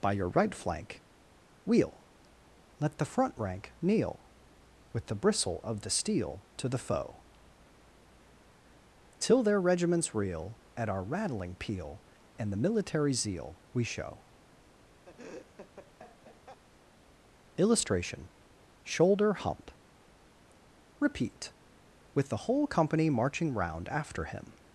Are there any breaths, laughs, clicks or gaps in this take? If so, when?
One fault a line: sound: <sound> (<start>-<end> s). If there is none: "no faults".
sound: laugh (15.1-16.6 s)